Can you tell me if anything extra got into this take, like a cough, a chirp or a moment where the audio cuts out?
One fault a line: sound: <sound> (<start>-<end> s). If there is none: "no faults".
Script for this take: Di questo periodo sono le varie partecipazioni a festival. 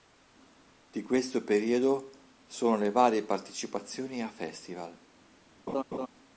sound: laugh (5.7-6.1 s)